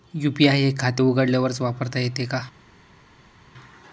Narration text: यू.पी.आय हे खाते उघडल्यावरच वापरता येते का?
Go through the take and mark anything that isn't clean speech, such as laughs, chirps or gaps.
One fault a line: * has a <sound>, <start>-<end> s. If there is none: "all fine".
all fine